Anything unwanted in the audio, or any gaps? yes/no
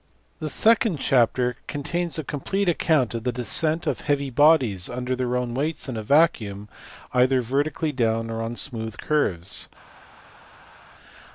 no